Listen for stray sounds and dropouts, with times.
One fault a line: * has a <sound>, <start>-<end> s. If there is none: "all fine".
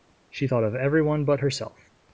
all fine